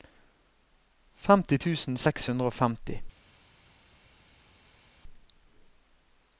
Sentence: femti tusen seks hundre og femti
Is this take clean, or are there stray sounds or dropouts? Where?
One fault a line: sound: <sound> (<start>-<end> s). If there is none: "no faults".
no faults